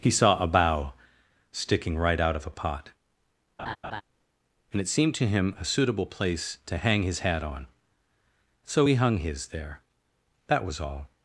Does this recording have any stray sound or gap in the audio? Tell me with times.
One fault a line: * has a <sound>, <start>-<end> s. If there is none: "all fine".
* has a laugh, 3.6-4.0 s